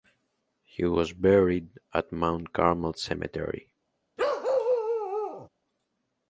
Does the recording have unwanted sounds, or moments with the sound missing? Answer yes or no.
yes